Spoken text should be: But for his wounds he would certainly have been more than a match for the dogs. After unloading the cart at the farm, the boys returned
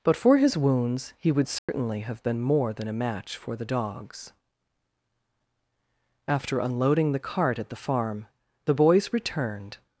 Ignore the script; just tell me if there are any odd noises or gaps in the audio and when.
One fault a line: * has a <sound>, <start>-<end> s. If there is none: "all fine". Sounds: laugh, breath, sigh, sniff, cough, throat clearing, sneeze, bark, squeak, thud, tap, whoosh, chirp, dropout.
* has a dropout, 1.6-1.7 s